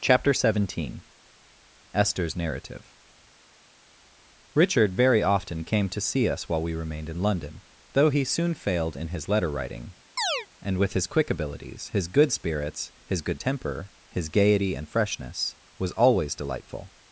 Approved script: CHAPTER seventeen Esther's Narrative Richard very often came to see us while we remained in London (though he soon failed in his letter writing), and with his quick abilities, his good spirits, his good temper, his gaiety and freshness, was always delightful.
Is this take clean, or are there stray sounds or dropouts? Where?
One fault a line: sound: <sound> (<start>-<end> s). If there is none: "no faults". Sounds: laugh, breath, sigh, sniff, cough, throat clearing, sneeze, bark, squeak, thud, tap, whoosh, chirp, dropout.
sound: chirp (10.2-10.5 s)